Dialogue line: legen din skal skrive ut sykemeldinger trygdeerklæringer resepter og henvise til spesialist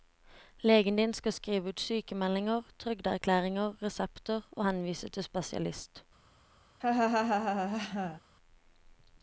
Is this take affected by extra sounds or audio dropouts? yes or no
yes